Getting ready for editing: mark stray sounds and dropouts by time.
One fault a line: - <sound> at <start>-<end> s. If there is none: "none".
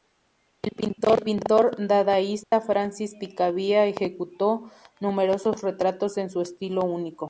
- dropout at 2.4-2.5 s